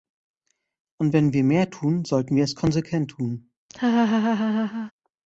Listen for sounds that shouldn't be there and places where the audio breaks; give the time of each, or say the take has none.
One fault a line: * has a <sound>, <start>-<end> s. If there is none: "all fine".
* has a laugh, 3.7-4.9 s